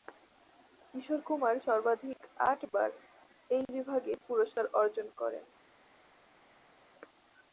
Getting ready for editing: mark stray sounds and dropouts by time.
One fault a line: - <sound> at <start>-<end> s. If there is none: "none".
none